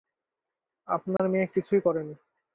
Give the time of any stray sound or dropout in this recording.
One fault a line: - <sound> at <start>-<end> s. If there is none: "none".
- dropout at 1.2-1.2 s